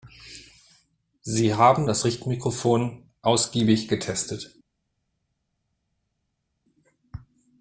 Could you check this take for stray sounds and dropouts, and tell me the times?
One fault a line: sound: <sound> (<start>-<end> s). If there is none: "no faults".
no faults